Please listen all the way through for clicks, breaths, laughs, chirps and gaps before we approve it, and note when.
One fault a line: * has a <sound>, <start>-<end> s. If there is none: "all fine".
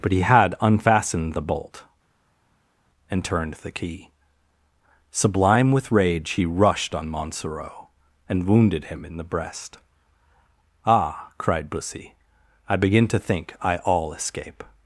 all fine